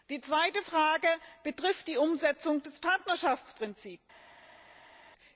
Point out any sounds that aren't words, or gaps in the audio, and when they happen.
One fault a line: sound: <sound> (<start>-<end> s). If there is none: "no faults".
no faults